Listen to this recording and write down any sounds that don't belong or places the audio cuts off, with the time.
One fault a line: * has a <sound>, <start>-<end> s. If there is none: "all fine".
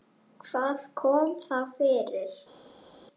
all fine